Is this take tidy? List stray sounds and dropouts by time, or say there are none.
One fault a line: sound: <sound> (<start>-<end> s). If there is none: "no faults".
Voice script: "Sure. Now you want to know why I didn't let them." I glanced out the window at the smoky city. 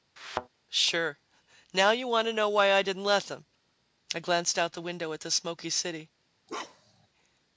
sound: thud (0.2-0.5 s)
sound: bark (6.5-7.1 s)